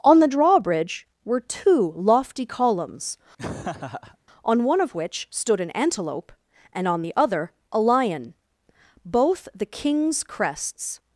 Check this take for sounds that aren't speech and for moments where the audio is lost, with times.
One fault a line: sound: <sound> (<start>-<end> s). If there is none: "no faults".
sound: laugh (3.4-4.2 s)